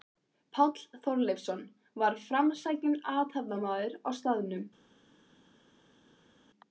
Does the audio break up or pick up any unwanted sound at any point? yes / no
no